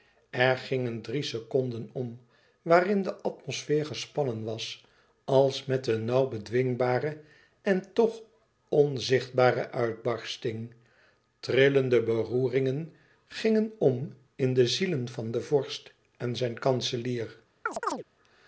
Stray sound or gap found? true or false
true